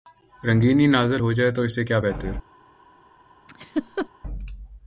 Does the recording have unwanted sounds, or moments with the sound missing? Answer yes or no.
yes